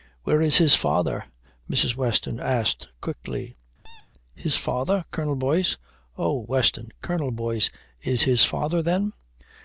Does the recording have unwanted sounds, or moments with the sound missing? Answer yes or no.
yes